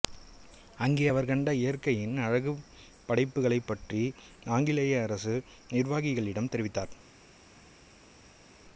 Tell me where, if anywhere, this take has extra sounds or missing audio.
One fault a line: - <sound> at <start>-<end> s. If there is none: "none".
none